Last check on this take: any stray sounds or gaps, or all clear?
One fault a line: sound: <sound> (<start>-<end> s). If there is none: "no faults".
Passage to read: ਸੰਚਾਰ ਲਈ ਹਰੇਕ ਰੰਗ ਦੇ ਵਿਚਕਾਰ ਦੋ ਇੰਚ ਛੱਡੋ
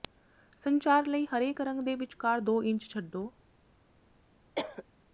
sound: cough (4.6-4.8 s)